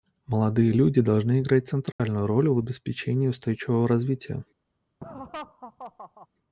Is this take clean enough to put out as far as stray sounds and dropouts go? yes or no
no